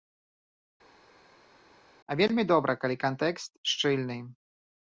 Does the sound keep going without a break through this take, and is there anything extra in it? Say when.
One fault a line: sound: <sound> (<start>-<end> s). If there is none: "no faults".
no faults